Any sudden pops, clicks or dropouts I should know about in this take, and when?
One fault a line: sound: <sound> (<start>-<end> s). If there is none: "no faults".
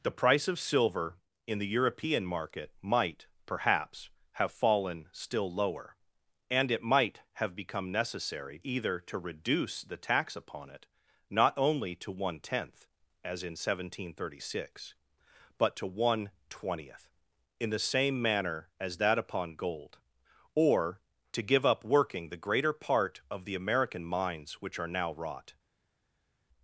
no faults